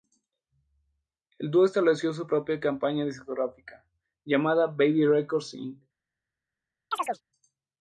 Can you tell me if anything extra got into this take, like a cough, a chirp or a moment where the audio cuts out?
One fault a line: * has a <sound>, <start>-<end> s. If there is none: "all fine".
* has a chirp, 6.9-7.2 s